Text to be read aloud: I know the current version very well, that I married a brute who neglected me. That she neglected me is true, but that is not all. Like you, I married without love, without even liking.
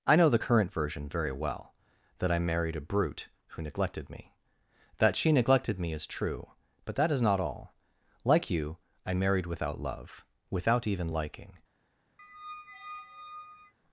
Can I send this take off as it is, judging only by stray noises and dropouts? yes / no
no